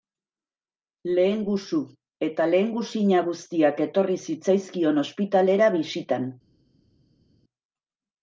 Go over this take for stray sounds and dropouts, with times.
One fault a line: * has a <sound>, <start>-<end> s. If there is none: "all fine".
all fine